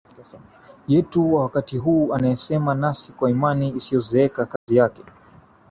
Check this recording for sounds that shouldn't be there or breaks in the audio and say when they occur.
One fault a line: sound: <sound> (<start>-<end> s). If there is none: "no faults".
sound: dropout (4.6-4.7 s)